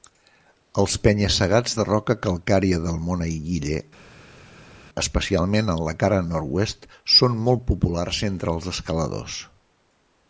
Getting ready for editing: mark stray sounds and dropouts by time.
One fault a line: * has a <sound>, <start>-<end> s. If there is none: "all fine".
all fine